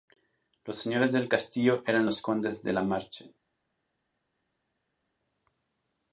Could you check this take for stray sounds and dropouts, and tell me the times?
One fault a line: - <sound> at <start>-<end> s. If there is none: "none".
none